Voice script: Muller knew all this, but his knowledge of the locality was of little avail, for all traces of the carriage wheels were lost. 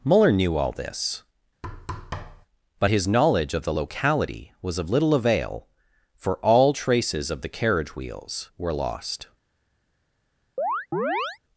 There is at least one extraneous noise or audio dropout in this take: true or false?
true